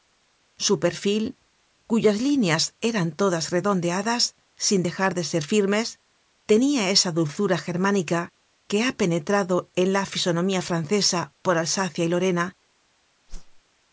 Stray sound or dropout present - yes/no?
yes